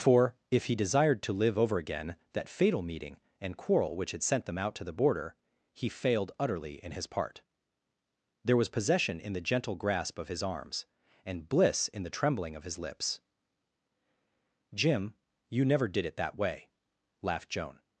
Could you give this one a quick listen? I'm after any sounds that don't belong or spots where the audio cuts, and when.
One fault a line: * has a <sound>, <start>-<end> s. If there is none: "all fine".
all fine